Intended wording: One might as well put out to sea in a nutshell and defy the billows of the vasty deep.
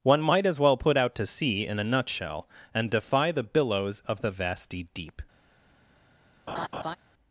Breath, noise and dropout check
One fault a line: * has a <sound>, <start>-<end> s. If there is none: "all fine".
* has a laugh, 6.5-7.0 s